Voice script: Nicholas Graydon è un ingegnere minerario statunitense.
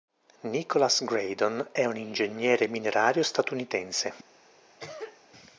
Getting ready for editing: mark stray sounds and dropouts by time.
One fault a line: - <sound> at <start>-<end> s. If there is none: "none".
- cough at 4.8-5.2 s